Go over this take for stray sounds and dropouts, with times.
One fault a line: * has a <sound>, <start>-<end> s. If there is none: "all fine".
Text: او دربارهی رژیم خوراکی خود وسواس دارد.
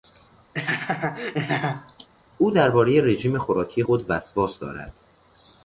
* has a laugh, 0.5-2.1 s